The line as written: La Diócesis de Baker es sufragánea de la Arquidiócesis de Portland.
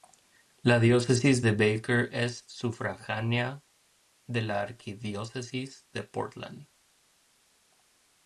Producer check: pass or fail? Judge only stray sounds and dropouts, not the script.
pass